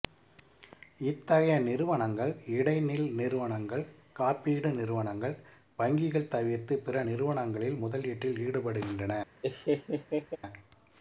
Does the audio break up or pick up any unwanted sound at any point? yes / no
yes